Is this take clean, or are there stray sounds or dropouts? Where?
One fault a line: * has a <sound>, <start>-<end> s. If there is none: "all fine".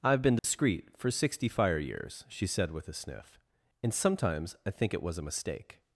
* has a dropout, 0.4-0.4 s